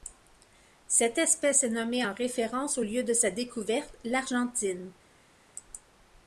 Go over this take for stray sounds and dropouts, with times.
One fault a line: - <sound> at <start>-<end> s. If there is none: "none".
none